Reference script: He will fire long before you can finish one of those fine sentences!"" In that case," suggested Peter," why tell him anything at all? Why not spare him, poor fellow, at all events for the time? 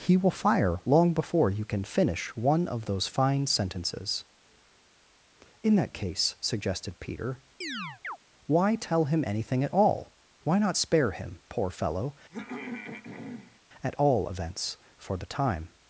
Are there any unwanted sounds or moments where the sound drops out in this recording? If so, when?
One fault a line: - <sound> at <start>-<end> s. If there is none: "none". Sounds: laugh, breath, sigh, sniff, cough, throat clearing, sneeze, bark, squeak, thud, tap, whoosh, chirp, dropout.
- chirp at 7.6-8.2 s
- throat clearing at 12.3-13.6 s